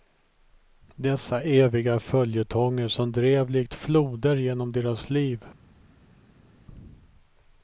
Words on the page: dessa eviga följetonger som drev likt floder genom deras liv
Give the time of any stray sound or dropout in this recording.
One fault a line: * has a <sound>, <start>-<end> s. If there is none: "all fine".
all fine